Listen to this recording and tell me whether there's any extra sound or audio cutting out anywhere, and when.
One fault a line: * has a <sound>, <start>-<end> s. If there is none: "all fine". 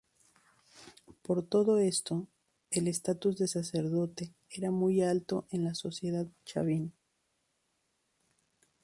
all fine